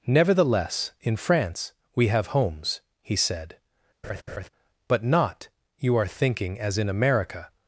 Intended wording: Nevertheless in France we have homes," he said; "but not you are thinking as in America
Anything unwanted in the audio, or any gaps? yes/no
yes